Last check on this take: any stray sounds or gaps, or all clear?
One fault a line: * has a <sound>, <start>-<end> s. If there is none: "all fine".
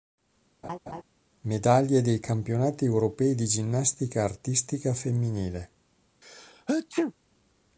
* has a laugh, 0.6-1.0 s
* has a sneeze, 6.2-7.1 s